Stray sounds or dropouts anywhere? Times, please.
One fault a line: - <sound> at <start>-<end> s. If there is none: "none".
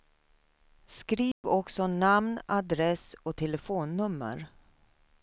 - dropout at 1.3-1.4 s